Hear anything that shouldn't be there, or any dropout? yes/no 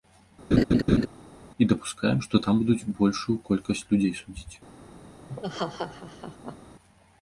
yes